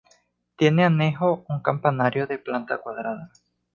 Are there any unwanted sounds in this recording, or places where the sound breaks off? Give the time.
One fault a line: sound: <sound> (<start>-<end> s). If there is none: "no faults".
no faults